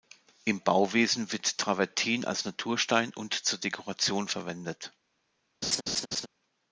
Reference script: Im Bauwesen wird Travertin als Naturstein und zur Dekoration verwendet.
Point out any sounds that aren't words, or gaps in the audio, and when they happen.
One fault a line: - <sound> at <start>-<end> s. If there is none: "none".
- laugh at 5.6-6.3 s